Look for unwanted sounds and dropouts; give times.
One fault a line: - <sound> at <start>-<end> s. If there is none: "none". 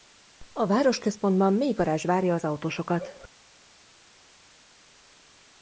none